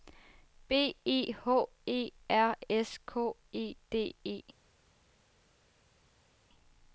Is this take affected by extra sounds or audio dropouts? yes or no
no